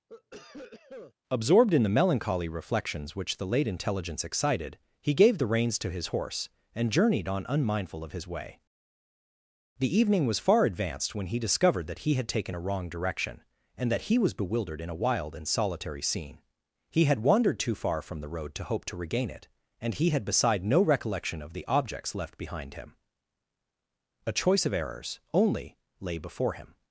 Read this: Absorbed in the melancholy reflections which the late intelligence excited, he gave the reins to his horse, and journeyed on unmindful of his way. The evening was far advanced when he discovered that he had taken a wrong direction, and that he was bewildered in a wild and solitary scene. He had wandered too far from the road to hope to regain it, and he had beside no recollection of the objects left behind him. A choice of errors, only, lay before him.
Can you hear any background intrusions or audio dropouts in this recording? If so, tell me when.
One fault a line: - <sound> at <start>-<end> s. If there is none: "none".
- cough at 0.1-1.1 s